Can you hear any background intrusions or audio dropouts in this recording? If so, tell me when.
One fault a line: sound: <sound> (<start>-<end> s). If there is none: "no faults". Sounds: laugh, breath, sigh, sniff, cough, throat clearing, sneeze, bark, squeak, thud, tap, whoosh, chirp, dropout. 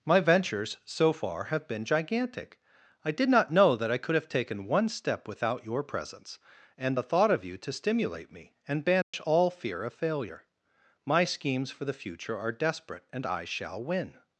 sound: dropout (9.0-9.1 s)